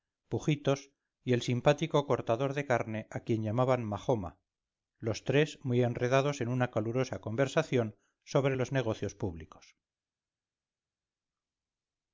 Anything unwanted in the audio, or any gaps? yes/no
no